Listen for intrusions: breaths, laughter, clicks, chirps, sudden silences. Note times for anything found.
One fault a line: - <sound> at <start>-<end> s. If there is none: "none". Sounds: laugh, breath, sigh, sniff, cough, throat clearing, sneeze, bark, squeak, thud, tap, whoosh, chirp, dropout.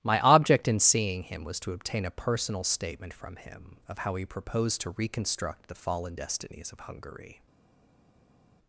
none